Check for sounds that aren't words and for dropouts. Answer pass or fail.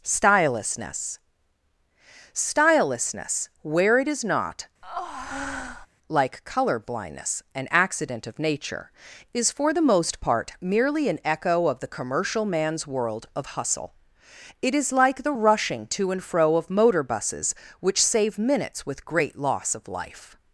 fail